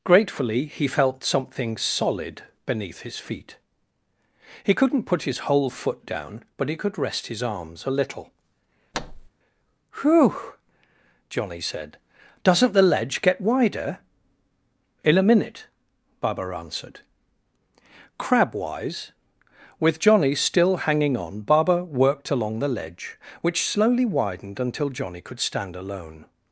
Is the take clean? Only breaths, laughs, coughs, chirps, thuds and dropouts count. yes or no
no